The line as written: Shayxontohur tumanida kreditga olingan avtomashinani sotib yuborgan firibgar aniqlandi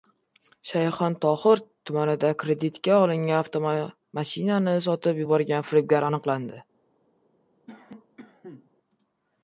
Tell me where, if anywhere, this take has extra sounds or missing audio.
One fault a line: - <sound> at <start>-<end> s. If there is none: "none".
- cough at 7.7-8.7 s